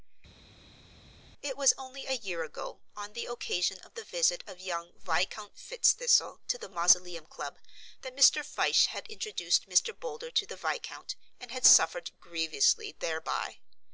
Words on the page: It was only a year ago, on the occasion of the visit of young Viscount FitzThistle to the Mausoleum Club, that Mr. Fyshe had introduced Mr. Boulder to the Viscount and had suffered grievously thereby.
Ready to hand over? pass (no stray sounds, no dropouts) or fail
pass